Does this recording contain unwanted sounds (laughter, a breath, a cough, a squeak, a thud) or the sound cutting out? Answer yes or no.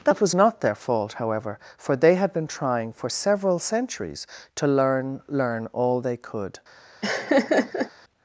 yes